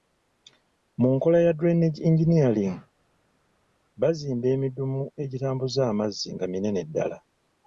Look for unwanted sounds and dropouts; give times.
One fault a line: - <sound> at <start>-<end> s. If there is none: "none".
none